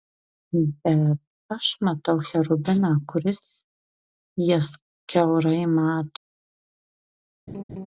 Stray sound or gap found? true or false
true